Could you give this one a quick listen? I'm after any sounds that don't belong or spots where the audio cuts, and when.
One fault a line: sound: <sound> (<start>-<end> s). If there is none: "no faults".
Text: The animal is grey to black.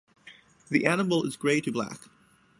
no faults